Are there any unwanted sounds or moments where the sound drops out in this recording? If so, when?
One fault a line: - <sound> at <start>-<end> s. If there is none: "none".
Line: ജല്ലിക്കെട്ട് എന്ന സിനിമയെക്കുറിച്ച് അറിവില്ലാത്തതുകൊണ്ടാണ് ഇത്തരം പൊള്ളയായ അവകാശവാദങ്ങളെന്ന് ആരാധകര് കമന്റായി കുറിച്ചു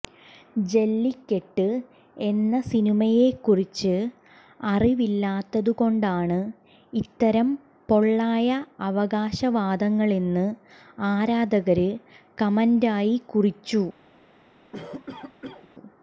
- cough at 14.7-15.7 s